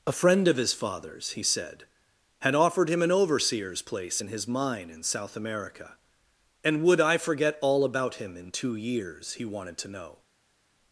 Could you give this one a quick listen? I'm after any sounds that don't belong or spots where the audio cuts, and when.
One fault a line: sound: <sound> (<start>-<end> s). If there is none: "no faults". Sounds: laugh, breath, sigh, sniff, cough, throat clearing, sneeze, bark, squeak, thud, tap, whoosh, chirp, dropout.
no faults